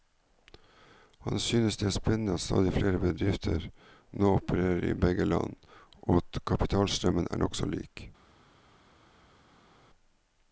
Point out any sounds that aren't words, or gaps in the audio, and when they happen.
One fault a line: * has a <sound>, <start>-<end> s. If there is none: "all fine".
all fine